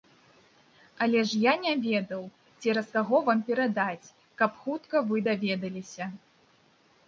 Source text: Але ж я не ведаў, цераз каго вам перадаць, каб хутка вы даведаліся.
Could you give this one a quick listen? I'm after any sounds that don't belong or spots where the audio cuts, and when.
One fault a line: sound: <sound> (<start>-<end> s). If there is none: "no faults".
no faults